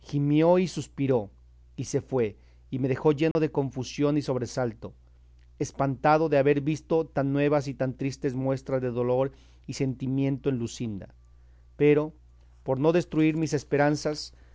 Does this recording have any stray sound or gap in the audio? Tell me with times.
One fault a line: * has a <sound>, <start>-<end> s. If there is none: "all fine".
* has a dropout, 3.3-3.4 s